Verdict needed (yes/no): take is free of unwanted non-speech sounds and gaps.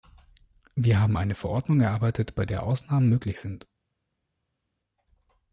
yes